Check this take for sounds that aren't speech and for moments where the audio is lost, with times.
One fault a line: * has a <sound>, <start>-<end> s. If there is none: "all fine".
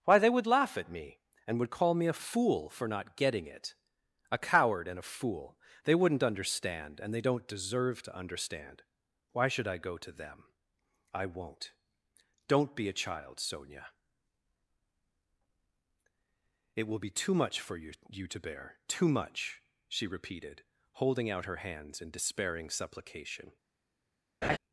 * has a laugh, 24.4-24.6 s